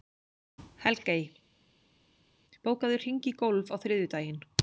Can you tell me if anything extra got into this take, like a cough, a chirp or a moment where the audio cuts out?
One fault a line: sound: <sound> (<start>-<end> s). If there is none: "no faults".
no faults